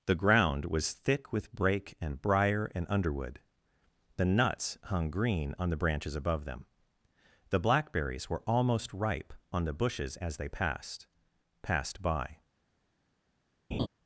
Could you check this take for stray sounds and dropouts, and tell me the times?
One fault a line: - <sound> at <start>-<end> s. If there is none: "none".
- laugh at 13.7-13.9 s